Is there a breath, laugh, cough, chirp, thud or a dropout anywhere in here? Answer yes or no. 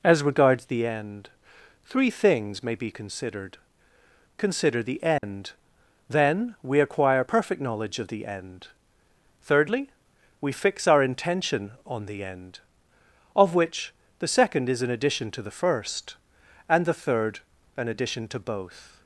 yes